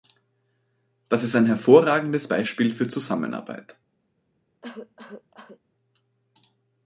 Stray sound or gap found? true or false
true